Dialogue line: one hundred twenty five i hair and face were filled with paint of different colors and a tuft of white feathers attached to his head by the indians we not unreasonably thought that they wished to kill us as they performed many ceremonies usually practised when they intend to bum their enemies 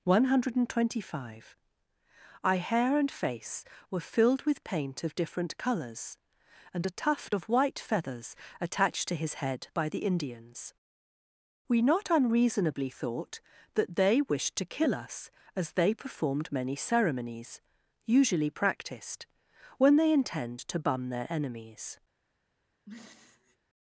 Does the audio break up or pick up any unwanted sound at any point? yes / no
yes